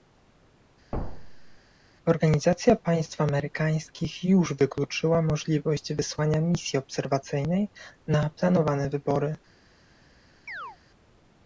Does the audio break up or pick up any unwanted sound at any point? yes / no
yes